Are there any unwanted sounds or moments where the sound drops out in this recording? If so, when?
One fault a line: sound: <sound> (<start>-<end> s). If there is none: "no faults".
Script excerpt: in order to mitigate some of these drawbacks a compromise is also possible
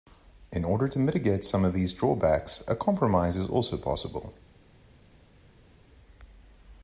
no faults